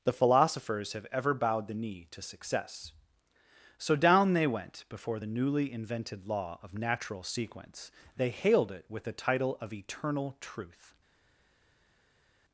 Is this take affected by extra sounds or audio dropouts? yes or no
no